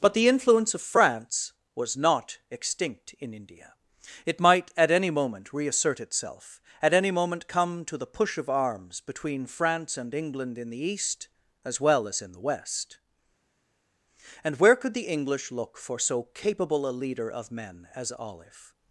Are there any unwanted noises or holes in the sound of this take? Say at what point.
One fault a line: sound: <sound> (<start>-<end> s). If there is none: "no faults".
no faults